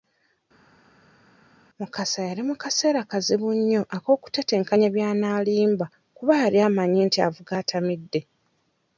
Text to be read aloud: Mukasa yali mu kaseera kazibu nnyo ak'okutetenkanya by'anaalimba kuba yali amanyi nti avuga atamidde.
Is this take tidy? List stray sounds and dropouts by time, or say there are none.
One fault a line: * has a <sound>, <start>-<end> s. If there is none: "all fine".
all fine